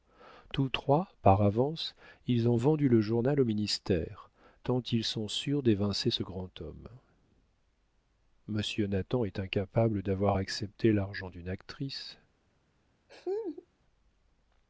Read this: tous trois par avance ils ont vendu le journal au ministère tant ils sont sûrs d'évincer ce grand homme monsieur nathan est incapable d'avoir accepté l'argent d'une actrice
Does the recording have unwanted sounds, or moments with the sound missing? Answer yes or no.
yes